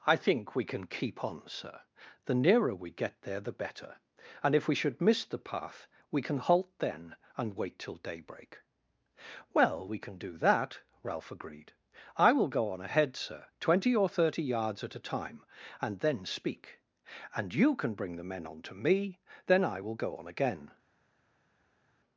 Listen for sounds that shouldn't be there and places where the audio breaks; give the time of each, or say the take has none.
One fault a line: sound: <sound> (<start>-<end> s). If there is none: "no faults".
no faults